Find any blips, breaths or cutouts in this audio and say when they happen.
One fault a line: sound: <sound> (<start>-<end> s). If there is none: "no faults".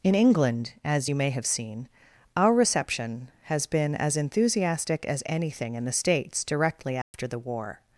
sound: dropout (7.0-7.1 s)